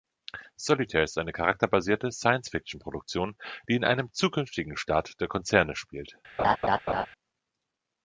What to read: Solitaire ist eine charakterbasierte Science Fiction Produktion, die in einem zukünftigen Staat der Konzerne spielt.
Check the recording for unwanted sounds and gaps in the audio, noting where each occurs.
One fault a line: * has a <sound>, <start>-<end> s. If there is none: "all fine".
* has a laugh, 6.4-7.1 s